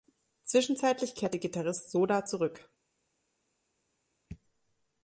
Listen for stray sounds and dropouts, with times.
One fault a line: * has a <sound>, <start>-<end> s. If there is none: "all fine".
all fine